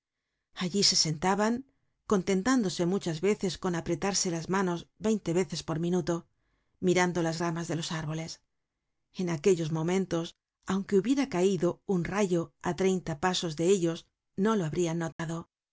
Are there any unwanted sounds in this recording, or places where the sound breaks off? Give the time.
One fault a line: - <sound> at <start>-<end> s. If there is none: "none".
- dropout at 15.1-15.2 s